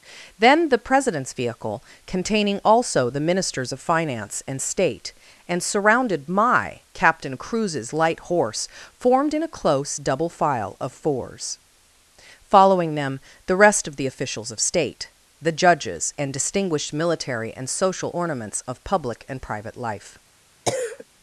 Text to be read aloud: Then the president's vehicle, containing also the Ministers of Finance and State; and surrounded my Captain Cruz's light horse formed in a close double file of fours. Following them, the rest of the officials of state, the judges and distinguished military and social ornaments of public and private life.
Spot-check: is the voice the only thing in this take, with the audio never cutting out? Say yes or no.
no